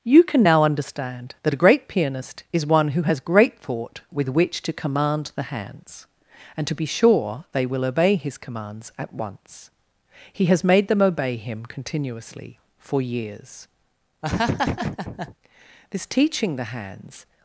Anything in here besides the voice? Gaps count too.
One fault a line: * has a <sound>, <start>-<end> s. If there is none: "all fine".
* has a laugh, 14.2-15.3 s